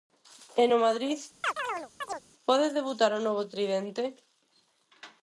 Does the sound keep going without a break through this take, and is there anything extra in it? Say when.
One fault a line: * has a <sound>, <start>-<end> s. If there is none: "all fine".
* has a chirp, 1.4-2.2 s